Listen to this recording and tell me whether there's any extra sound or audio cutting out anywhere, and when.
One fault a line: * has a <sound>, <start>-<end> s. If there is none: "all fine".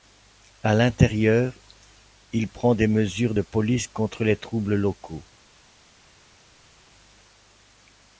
all fine